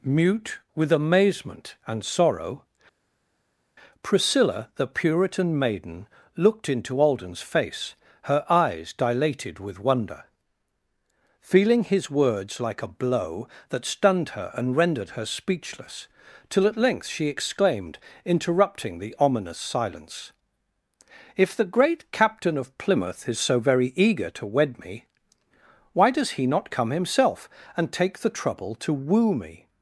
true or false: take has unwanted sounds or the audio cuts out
false